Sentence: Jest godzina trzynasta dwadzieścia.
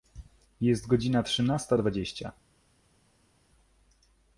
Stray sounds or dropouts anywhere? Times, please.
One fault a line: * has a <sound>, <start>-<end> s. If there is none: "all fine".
all fine